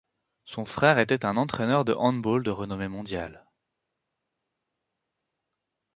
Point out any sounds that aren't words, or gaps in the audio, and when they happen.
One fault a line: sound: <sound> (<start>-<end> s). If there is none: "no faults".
no faults